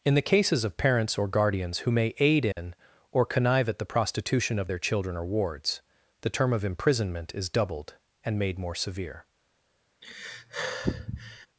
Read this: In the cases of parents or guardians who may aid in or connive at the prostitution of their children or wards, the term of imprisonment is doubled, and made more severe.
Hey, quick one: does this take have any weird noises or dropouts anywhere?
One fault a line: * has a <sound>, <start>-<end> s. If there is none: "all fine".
* has a dropout, 2.5-2.6 s
* has a sigh, 10.0-11.5 s